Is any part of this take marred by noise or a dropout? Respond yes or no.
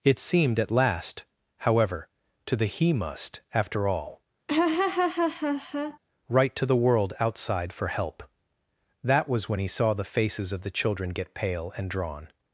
yes